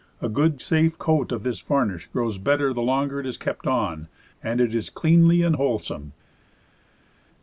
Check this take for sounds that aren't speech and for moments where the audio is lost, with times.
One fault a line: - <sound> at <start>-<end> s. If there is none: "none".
none